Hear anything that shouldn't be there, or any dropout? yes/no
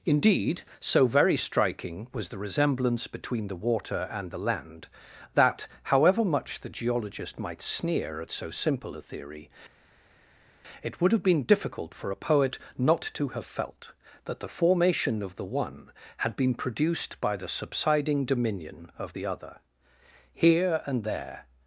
no